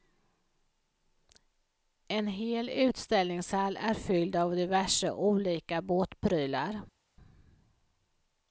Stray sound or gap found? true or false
false